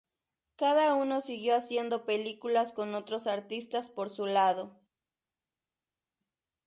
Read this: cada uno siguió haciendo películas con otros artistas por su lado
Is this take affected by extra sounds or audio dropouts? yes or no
no